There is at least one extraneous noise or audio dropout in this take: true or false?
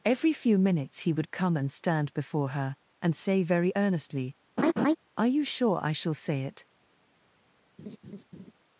true